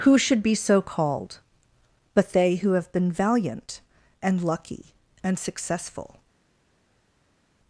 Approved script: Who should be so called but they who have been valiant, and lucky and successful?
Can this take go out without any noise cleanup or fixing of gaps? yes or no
yes